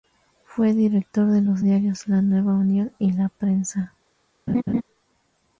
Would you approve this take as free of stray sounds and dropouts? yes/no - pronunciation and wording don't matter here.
no